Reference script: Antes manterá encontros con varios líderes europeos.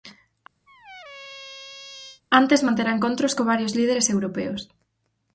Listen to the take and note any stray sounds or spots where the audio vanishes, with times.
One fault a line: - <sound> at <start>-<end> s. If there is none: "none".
- squeak at 0.7-2.2 s